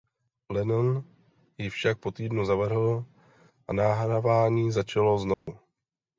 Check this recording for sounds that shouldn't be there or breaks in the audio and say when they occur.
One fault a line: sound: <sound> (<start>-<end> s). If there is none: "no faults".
sound: dropout (5.3-5.5 s)